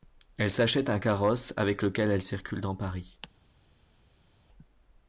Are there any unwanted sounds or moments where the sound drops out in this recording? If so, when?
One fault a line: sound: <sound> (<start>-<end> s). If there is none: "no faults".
no faults